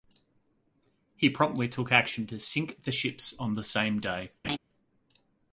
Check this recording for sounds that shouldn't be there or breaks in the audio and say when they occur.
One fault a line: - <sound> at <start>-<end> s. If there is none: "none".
- laugh at 4.4-4.6 s